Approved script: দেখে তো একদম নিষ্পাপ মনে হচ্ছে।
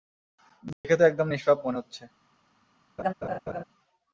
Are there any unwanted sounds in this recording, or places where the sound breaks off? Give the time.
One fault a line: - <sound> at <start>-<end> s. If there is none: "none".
- dropout at 0.7-0.8 s
- laugh at 3.0-3.6 s